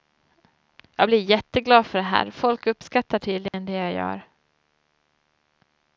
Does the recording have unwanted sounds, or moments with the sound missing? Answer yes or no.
yes